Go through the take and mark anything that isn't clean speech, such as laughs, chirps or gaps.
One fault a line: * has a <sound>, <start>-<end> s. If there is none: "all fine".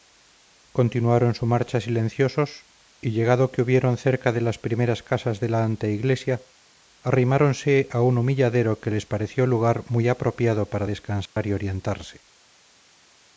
* has a dropout, 11.3-11.4 s